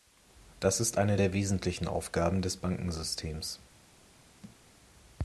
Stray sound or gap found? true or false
true